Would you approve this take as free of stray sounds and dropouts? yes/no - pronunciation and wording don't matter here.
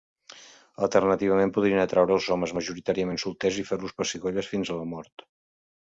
yes